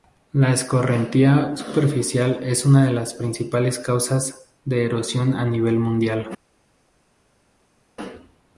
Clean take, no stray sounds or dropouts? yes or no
yes